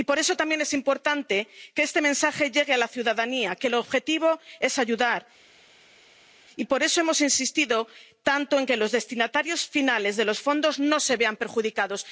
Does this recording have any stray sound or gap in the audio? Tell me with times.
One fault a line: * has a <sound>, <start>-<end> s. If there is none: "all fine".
all fine